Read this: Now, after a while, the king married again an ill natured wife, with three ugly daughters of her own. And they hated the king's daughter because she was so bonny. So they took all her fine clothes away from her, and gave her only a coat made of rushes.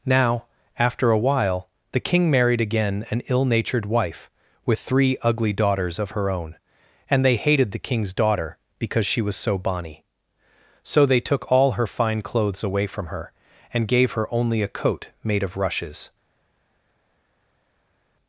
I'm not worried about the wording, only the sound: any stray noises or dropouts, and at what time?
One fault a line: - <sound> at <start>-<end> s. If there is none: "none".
none